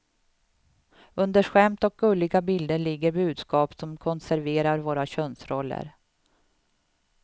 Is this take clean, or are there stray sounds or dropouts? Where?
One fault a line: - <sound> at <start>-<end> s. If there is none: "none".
none